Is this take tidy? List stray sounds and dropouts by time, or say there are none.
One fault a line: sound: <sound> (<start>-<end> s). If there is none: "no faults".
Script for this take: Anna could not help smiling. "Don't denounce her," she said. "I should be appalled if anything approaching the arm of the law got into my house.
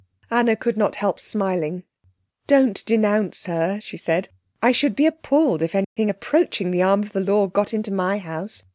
sound: dropout (5.8-6.0 s)